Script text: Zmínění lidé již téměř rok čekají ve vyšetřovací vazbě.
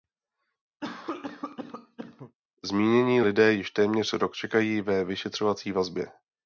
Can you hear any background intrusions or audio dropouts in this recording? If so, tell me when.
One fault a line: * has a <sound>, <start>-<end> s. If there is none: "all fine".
* has a cough, 0.8-2.4 s